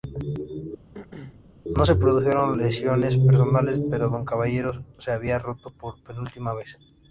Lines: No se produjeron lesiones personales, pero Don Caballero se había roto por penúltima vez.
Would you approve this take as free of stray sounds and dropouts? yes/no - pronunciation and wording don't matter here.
no